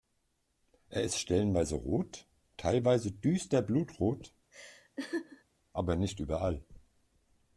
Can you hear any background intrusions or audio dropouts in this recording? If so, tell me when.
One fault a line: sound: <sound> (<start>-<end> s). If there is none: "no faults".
sound: laugh (4.5-5.4 s)